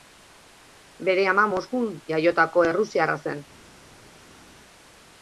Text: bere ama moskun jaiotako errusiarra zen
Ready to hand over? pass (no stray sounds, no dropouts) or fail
pass